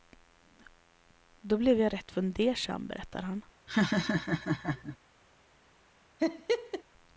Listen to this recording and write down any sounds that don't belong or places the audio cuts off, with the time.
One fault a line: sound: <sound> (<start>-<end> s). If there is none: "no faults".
sound: laugh (3.7-5.0 s)
sound: laugh (6.2-6.8 s)